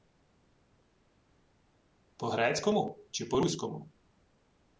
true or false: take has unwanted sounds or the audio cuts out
false